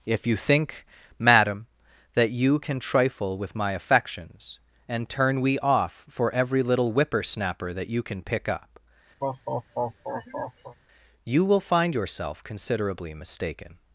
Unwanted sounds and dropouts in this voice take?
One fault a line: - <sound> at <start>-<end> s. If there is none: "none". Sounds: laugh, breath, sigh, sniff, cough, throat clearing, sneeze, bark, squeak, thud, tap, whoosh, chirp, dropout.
- laugh at 9.2-10.8 s